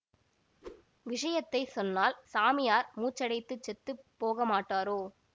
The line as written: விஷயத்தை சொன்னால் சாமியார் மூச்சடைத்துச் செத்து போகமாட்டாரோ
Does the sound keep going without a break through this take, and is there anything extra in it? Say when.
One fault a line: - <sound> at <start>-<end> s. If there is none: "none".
- whoosh at 0.6-0.8 s